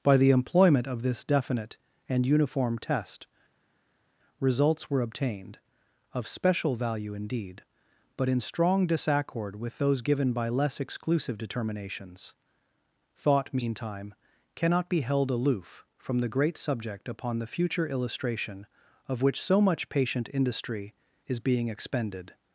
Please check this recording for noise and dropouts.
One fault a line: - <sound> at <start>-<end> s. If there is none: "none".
none